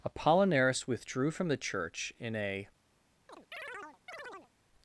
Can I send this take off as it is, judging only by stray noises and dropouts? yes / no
no